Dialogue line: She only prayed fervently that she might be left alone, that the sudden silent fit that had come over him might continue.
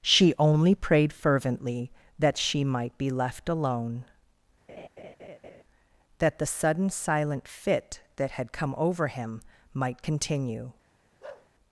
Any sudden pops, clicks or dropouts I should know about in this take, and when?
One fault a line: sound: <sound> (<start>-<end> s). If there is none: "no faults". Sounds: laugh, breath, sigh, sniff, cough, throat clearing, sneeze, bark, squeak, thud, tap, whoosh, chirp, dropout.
sound: laugh (4.7-5.6 s)
sound: bark (11.2-11.5 s)